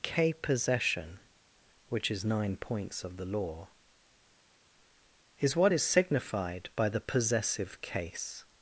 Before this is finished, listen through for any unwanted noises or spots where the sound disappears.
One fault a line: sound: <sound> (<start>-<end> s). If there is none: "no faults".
no faults